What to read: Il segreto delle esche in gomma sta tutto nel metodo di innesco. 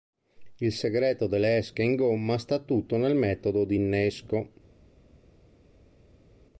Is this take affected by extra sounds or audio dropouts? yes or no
no